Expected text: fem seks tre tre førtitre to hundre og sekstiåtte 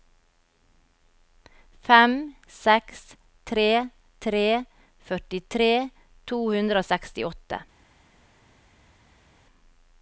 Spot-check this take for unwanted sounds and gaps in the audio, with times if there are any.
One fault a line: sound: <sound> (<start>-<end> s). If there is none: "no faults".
no faults